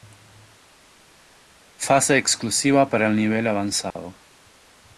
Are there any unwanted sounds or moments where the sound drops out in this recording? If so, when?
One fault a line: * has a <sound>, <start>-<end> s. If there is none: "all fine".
* has a dropout, 3.9-4.0 s